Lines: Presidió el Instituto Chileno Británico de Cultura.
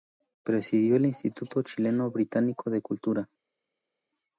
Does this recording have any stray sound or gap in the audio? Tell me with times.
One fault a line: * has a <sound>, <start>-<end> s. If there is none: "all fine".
all fine